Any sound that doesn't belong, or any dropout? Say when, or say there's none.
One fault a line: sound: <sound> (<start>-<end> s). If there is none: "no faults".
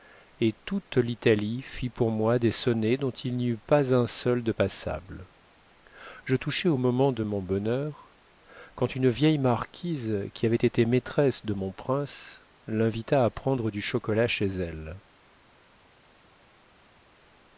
no faults